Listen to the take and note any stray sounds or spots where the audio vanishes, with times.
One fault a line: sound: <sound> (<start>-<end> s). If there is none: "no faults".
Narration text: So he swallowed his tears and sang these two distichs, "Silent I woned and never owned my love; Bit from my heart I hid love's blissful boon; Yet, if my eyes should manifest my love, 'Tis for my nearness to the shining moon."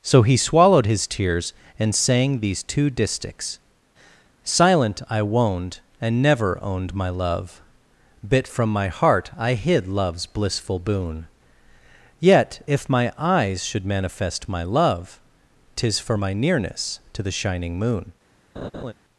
sound: laugh (18.6-18.9 s)